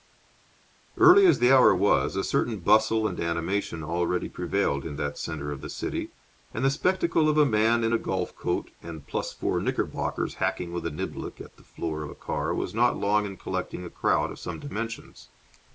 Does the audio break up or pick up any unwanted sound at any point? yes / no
no